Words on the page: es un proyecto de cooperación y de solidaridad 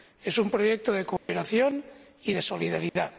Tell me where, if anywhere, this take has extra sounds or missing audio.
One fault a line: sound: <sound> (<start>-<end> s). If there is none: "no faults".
sound: dropout (1.2-1.3 s)
sound: dropout (2.9-3.0 s)